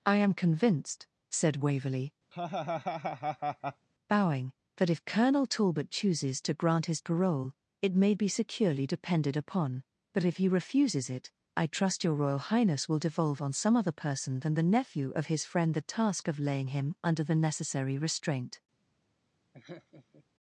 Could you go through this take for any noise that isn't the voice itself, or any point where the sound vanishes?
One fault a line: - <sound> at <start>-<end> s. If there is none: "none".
- laugh at 2.3-3.9 s
- laugh at 19.5-20.2 s